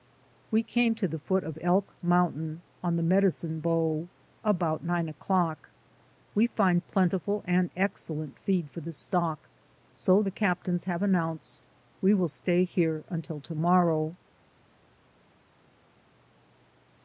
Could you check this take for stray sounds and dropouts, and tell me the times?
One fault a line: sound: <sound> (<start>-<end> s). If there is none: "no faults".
no faults